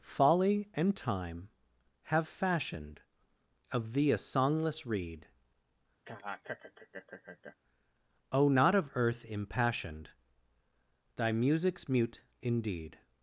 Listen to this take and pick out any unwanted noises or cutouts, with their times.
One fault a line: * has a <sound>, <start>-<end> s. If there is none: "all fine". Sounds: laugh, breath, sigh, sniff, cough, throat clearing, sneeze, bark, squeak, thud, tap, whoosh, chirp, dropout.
* has a laugh, 6.0-7.6 s